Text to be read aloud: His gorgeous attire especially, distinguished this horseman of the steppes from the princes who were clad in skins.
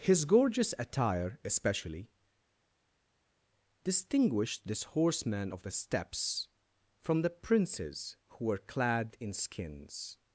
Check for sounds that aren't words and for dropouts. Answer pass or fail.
pass